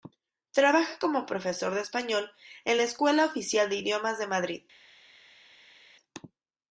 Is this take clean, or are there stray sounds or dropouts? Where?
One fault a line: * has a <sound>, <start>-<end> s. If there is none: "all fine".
all fine